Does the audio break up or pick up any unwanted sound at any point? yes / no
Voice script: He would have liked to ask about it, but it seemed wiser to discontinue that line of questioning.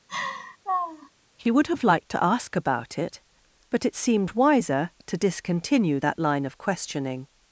yes